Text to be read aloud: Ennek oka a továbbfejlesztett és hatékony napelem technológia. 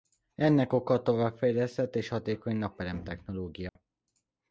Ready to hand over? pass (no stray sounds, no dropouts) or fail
fail